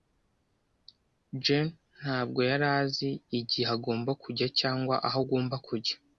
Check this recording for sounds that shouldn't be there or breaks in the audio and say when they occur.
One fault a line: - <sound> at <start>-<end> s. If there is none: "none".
none